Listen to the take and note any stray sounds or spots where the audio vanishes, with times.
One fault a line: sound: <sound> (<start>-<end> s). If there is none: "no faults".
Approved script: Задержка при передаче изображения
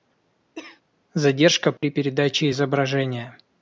sound: cough (0.6-0.8 s)
sound: dropout (1.8-1.8 s)